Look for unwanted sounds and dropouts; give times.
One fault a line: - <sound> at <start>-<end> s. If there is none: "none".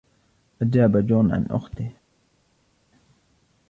none